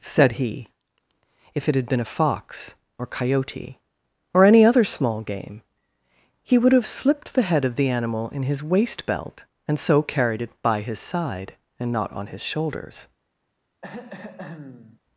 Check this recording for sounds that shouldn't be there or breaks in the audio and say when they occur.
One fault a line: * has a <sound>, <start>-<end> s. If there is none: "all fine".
* has a throat clearing, 13.8-15.0 s